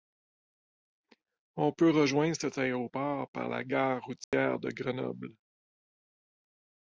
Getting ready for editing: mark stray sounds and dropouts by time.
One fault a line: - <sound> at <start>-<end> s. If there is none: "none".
- dropout at 4.2-4.3 s